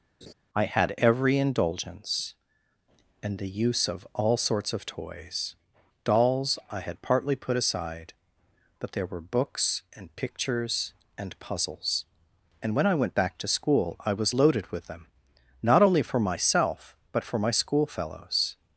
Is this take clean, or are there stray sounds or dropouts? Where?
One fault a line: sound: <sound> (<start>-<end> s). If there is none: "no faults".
sound: laugh (0.2-0.3 s)